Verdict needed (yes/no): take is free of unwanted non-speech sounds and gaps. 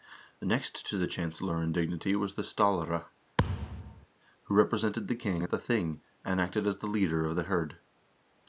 no